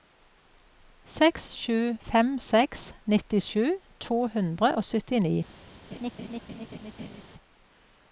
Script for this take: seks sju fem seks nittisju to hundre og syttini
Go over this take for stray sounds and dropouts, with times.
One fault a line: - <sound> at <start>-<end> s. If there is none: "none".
- laugh at 5.9-7.2 s